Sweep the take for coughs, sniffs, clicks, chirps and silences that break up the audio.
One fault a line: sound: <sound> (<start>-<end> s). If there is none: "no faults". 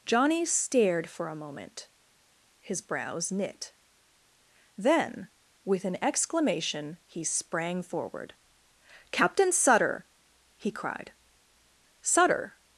no faults